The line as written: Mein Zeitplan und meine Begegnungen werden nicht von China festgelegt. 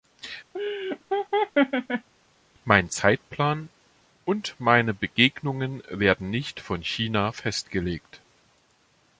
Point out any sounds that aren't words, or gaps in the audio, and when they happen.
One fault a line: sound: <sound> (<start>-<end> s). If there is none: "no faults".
sound: laugh (0.5-2.1 s)